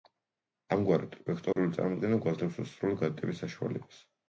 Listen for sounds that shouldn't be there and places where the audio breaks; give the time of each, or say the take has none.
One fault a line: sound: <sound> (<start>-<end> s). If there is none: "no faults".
sound: dropout (1.5-1.6 s)